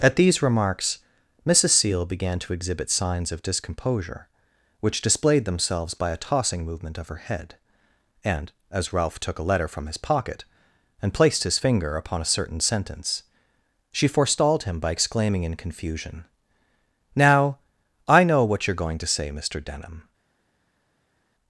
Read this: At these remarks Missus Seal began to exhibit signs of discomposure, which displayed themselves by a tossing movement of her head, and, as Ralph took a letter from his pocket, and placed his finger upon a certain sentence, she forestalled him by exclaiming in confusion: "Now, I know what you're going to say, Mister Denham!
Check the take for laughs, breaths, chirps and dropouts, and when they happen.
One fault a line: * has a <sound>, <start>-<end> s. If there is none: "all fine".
all fine